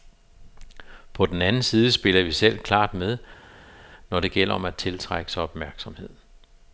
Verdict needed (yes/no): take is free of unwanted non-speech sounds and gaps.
yes